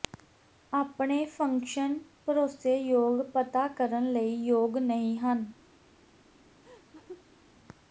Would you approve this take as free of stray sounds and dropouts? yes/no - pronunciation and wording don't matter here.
no